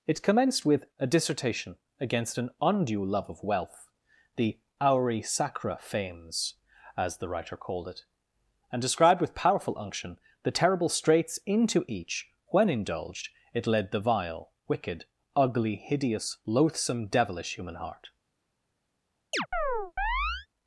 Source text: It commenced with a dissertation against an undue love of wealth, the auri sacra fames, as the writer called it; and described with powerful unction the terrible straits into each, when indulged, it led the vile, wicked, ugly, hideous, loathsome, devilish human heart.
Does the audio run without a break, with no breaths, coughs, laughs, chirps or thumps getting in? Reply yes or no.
no